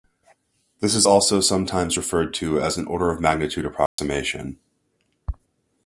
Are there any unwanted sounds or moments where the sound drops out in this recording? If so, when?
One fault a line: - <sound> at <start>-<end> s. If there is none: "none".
- dropout at 3.9-4.0 s